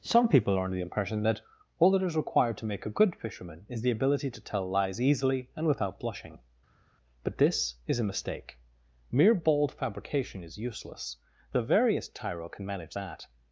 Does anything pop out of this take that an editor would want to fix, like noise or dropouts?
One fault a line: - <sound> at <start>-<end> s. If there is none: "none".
none